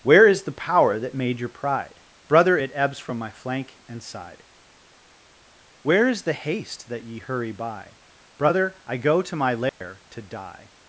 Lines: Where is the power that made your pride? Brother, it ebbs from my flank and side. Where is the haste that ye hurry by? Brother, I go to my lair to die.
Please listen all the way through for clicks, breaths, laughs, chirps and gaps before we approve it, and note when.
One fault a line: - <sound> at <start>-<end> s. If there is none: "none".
- dropout at 9.7-9.8 s